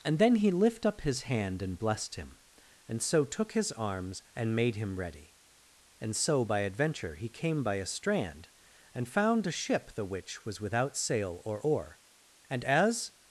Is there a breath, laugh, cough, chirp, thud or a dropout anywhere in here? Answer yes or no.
no